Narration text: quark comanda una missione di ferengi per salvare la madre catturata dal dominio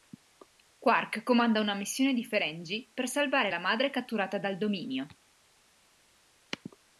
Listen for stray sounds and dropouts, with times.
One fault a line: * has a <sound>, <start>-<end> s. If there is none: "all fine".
all fine